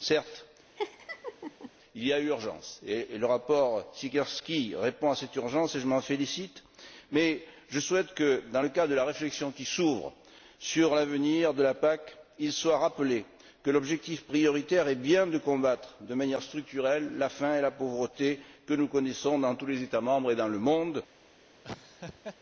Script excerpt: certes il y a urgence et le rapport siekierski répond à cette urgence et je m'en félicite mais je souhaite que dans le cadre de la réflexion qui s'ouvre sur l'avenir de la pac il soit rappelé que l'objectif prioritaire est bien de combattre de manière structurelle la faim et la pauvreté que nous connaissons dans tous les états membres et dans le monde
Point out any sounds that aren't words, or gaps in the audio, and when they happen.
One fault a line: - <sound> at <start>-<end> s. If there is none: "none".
- laugh at 0.8-1.7 s
- laugh at 21.6-22.4 s